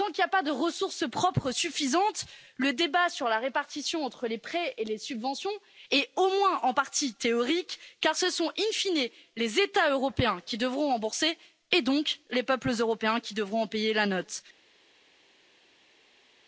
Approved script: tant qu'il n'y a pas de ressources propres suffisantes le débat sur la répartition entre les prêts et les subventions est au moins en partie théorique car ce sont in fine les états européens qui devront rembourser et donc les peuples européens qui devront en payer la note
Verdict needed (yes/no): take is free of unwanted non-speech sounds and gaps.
yes